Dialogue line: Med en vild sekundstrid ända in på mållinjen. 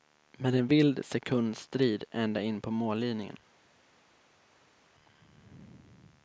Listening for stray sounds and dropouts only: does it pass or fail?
pass